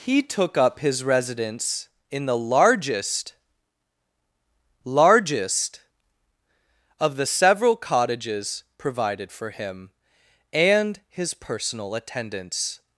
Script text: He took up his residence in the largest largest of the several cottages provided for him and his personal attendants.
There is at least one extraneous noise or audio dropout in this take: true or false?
false